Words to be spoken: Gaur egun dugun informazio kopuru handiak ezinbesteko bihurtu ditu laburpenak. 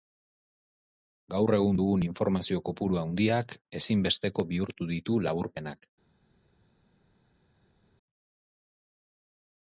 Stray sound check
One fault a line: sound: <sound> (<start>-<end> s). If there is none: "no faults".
no faults